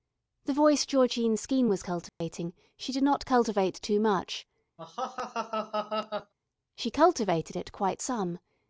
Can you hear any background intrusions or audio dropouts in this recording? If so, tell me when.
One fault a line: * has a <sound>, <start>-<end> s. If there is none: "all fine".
* has a dropout, 2.1-2.2 s
* has a laugh, 4.8-6.3 s